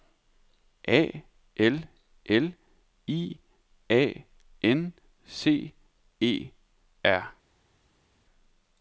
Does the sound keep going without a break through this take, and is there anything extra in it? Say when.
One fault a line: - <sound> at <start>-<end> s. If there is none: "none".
none